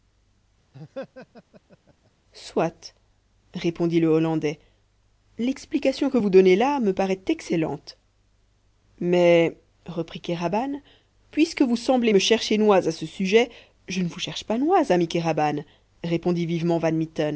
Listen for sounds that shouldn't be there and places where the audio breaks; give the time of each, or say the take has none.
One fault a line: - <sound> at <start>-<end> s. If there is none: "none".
- laugh at 0.7-2.1 s